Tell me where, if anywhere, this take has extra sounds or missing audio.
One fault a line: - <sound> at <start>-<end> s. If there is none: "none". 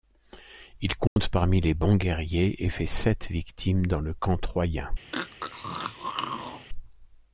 - dropout at 1.1-1.2 s
- throat clearing at 5.1-6.7 s